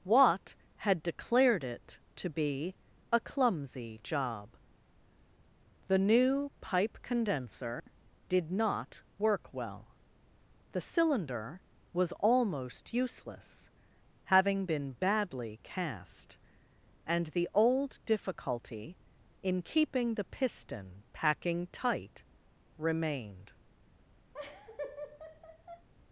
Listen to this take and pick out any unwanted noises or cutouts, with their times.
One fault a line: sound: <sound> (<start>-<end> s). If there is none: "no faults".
sound: dropout (7.8-7.9 s)
sound: laugh (24.3-25.9 s)